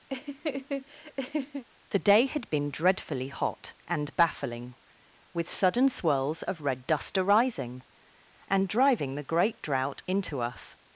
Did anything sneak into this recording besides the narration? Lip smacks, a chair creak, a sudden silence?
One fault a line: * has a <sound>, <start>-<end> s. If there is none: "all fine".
* has a laugh, 0.1-1.6 s